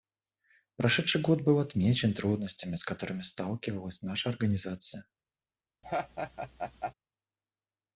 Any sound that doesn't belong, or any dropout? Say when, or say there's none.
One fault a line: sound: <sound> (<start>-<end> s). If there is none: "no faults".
sound: laugh (5.8-6.9 s)